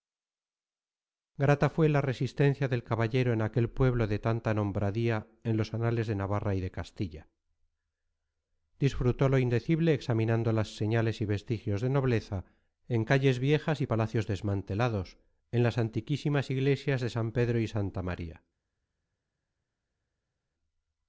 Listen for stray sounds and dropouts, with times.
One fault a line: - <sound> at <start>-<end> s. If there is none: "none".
none